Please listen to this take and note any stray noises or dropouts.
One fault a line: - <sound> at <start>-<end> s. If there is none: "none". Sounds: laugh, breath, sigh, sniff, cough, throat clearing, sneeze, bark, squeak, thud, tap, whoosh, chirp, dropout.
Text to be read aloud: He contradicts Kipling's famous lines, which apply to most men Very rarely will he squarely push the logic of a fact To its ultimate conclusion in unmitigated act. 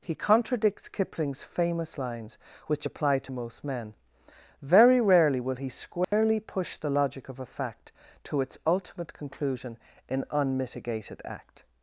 - dropout at 6.0-6.1 s